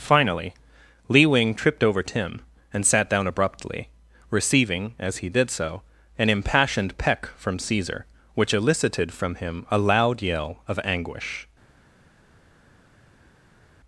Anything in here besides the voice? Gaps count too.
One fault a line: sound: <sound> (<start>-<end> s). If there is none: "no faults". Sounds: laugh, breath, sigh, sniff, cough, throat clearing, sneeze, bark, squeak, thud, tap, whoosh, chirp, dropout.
no faults